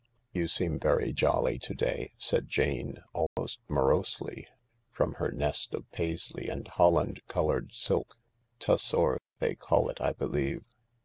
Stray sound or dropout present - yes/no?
yes